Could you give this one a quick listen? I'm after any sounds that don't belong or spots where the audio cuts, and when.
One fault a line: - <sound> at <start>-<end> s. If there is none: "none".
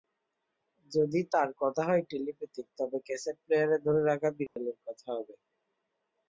- dropout at 4.5-4.6 s